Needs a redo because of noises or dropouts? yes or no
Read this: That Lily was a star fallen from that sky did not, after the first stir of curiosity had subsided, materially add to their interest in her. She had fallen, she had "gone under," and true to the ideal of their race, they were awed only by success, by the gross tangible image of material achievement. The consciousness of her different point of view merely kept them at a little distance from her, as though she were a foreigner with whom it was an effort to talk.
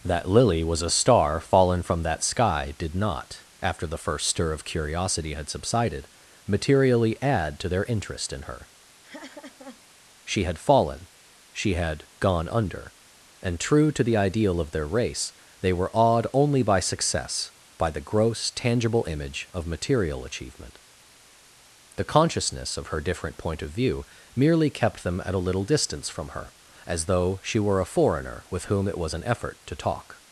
yes